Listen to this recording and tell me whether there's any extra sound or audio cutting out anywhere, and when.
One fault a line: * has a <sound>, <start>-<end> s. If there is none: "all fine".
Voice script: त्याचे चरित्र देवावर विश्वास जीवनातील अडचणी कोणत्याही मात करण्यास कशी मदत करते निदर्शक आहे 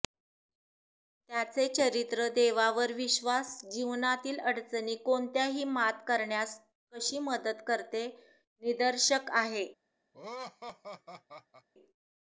* has a laugh, 10.1-11.7 s